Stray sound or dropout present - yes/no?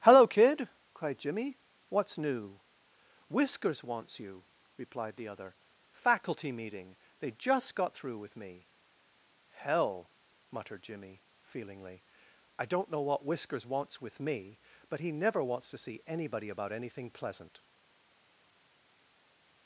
no